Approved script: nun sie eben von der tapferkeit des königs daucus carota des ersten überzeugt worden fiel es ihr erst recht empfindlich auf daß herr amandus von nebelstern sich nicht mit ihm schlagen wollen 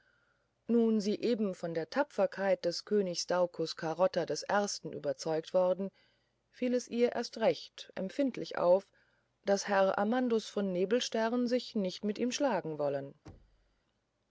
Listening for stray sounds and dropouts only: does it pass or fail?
fail